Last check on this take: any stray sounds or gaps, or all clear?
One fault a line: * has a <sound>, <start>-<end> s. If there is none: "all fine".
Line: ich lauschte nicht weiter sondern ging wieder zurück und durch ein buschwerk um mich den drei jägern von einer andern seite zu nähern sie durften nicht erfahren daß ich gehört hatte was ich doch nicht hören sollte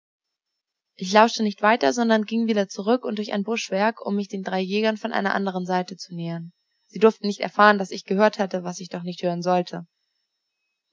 all fine